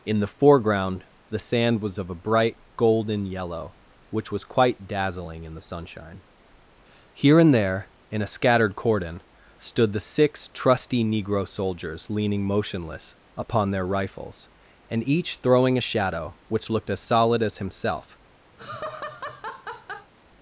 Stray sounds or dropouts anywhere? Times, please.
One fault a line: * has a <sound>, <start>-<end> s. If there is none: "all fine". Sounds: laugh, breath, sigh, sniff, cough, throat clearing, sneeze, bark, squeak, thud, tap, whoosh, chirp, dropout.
* has a laugh, 18.6-20.1 s